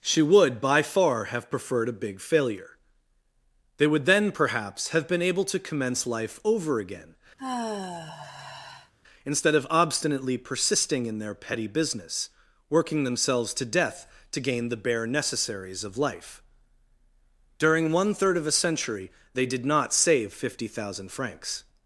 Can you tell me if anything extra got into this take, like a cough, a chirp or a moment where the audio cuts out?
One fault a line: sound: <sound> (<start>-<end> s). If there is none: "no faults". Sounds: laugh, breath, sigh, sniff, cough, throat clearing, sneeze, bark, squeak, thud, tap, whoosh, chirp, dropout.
sound: sigh (7.4-8.9 s)